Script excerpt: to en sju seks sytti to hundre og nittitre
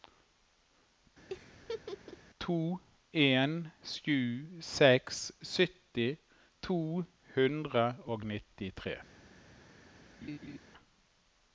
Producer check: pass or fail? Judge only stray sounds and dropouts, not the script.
fail